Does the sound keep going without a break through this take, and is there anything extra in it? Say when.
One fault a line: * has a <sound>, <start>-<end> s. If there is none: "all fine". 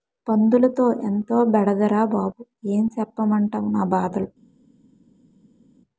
all fine